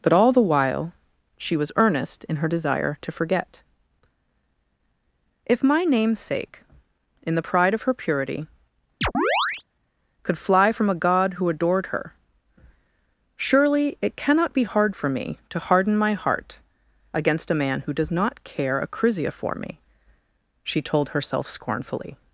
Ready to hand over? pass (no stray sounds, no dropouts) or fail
fail